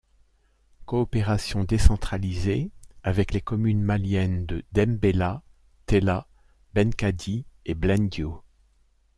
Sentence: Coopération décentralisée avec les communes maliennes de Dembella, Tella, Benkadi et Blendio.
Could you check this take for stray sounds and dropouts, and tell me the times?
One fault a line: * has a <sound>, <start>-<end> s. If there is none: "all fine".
all fine